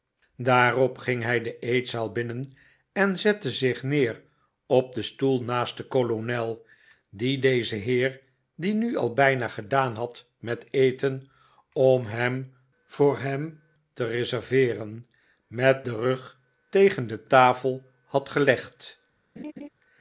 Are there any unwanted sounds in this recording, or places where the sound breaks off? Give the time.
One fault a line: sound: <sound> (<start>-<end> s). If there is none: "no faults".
sound: laugh (19.4-19.7 s)